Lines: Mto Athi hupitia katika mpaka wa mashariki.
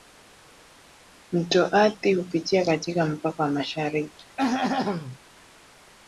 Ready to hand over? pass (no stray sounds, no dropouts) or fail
fail